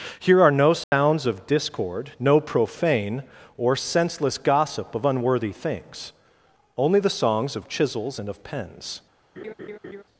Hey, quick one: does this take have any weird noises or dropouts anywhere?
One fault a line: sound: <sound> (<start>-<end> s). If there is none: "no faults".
sound: dropout (0.8-0.9 s)
sound: laugh (9.4-10.0 s)